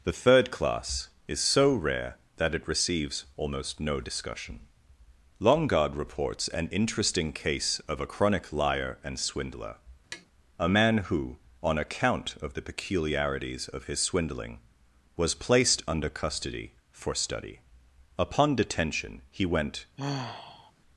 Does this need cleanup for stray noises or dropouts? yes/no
yes